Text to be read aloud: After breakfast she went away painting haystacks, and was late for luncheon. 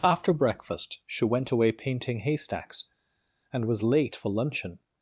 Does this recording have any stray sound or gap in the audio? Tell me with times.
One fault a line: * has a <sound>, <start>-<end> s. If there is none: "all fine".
all fine